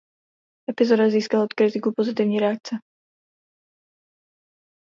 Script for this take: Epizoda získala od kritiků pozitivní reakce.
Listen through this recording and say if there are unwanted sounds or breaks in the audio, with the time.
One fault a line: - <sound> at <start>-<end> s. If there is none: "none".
none